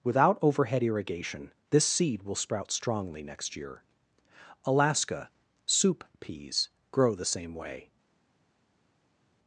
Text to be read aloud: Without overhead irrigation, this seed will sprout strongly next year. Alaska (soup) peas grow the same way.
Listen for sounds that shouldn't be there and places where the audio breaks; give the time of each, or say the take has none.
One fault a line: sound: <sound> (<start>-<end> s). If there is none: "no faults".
no faults